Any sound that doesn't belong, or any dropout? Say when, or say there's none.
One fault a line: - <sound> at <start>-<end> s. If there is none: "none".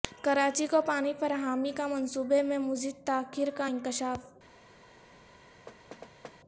- thud at 5.7-6.4 s